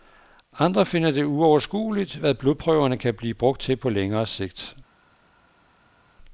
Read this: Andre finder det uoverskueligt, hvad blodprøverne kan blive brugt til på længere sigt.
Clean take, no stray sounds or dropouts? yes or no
yes